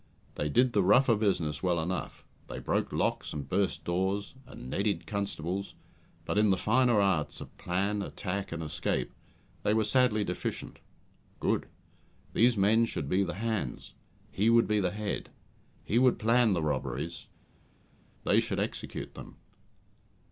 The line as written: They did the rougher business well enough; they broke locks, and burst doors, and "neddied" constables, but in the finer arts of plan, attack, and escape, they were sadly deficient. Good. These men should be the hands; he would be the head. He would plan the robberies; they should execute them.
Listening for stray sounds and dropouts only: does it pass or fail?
pass